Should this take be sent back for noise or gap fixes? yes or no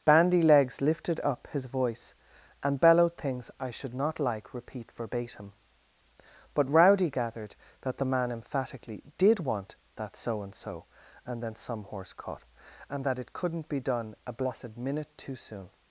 no